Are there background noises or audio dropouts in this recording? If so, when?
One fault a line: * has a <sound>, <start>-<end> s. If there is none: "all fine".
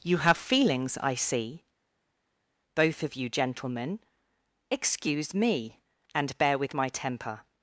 all fine